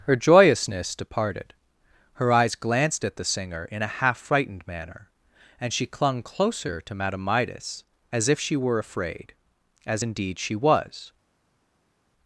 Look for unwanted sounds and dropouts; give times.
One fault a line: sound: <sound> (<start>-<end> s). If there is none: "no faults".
no faults